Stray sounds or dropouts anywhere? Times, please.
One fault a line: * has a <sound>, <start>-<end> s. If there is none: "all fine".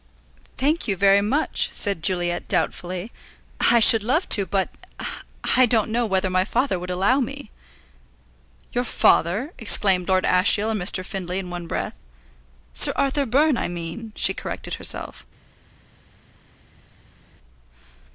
all fine